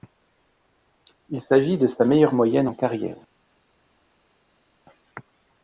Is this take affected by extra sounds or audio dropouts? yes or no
no